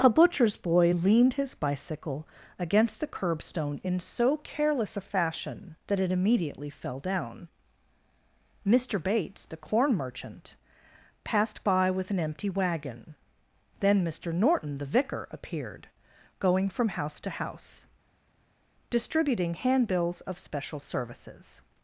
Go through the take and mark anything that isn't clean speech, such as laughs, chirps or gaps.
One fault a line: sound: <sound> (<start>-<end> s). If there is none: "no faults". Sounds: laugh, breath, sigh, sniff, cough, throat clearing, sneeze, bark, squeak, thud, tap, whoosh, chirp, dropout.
no faults